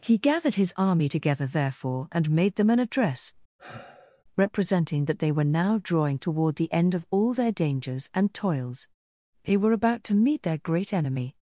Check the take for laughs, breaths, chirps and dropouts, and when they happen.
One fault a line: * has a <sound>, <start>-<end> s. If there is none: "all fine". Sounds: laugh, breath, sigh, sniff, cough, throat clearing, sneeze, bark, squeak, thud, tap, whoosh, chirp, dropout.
* has a sigh, 3.6-4.2 s